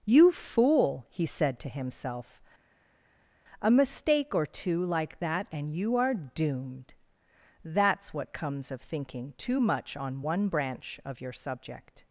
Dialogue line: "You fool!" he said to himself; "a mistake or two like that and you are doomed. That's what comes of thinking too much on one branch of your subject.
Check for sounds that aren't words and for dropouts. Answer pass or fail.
pass